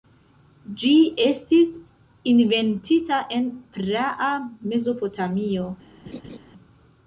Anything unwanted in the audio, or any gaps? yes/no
yes